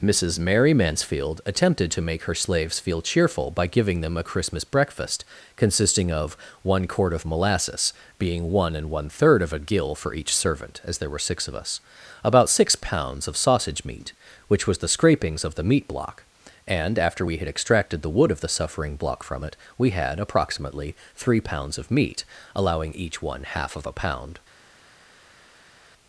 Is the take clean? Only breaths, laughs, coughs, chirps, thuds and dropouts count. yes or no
yes